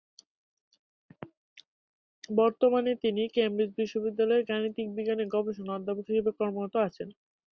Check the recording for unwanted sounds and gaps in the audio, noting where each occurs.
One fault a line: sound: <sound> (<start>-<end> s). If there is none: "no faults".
no faults